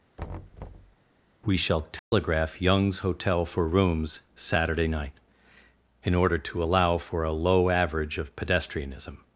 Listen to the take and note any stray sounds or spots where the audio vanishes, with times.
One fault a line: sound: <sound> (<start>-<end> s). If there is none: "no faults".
sound: thud (0.2-1.0 s)
sound: dropout (2.0-2.1 s)